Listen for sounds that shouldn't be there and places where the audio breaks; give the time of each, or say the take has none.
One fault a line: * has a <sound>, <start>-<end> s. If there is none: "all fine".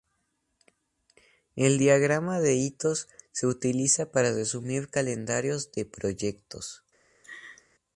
* has a laugh, 7.2-7.6 s